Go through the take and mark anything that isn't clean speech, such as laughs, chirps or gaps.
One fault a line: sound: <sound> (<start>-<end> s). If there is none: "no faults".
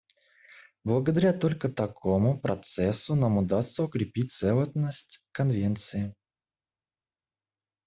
no faults